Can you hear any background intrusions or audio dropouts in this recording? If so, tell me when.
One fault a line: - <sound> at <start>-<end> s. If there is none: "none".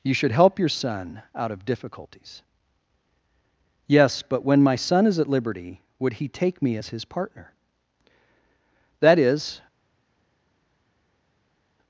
none